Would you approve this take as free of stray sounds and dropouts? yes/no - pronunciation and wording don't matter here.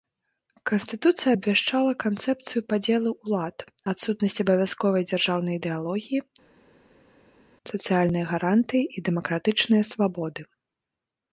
yes